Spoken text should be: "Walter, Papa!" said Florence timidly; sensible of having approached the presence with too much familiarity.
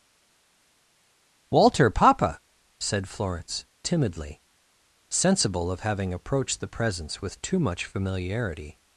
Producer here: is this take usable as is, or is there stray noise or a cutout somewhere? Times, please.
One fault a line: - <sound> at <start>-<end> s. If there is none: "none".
none